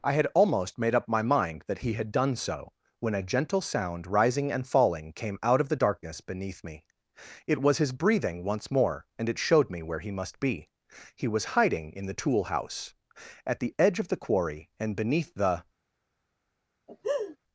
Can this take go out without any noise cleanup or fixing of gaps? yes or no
no